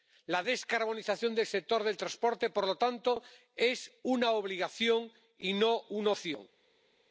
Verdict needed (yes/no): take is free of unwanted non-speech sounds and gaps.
yes